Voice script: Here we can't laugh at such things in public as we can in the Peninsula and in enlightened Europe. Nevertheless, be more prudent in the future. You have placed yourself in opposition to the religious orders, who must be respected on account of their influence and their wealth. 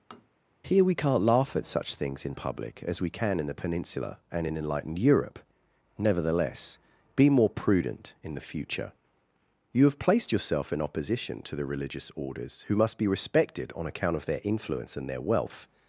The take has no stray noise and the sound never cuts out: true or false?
false